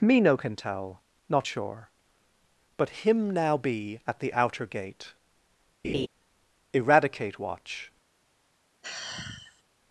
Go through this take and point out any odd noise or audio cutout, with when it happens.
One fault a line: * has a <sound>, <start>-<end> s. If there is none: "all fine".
* has a laugh, 5.8-6.1 s
* has a sigh, 8.8-9.6 s